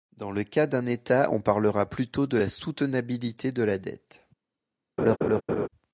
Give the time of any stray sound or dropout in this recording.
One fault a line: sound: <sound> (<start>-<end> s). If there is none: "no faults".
sound: laugh (5.0-5.7 s)